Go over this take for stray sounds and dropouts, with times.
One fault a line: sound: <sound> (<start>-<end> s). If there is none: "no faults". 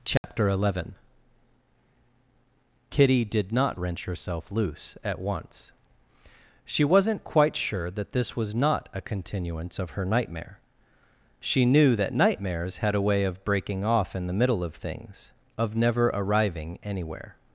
sound: dropout (0.2-0.2 s)